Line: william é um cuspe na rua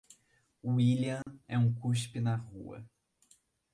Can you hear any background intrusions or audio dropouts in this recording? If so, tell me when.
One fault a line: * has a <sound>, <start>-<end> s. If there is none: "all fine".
* has a dropout, 1.2-1.3 s